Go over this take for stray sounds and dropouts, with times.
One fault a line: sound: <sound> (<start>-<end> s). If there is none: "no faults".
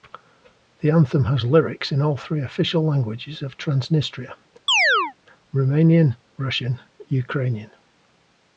sound: chirp (4.7-5.1 s)